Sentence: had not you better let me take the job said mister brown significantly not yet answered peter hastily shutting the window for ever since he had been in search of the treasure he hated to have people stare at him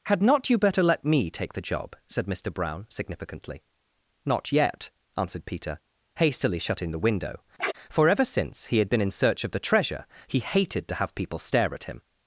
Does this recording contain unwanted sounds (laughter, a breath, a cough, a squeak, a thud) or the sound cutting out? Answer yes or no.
yes